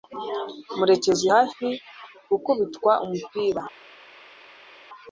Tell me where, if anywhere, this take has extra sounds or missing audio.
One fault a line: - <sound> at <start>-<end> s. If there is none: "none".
none